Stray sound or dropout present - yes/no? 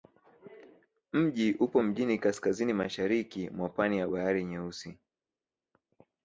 no